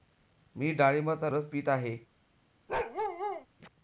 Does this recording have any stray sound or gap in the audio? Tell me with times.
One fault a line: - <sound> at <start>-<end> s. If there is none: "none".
- bark at 2.7-3.5 s